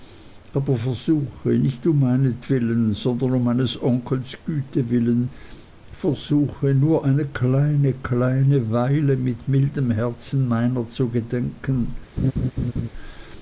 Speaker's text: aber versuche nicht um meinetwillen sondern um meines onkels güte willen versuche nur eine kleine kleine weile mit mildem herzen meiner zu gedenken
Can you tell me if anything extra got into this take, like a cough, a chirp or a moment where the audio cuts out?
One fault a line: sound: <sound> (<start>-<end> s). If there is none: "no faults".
sound: laugh (12.2-12.9 s)